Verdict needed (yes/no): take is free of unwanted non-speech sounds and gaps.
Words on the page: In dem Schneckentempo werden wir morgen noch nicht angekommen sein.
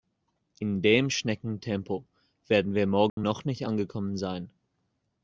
no